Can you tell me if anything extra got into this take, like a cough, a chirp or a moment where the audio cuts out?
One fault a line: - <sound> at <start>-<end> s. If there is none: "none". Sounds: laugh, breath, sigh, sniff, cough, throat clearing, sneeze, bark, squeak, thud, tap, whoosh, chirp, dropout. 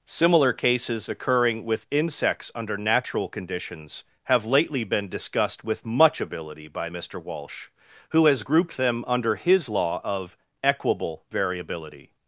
none